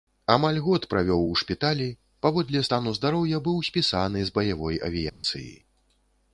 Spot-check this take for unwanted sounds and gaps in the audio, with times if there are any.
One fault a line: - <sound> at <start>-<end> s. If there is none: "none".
- dropout at 5.1-5.2 s